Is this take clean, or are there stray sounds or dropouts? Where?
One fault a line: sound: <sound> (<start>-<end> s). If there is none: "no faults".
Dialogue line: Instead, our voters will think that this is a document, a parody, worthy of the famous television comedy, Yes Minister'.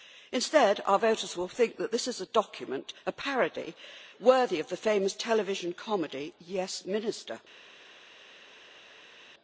no faults